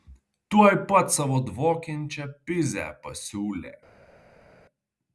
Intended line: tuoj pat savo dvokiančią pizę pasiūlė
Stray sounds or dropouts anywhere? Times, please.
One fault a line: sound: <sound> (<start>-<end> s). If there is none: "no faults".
no faults